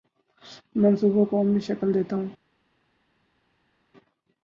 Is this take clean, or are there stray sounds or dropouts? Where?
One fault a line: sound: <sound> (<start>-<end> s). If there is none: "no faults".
no faults